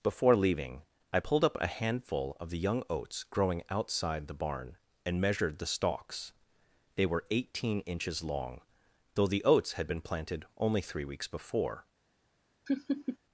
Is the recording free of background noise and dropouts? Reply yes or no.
no